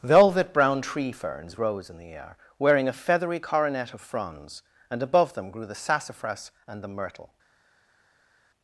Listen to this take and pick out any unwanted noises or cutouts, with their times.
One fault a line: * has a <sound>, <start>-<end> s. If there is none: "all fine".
all fine